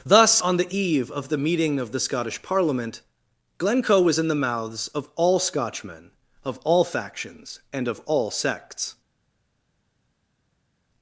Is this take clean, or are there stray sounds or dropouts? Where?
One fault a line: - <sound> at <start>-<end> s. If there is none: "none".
none